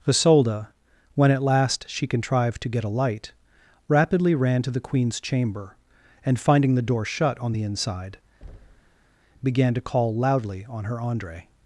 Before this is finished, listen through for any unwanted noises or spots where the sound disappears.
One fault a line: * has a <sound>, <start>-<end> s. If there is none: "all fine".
* has a thud, 8.4-9.2 s